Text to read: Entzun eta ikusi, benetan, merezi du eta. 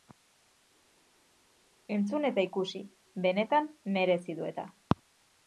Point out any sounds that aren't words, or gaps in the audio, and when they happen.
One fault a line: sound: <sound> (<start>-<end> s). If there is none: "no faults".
no faults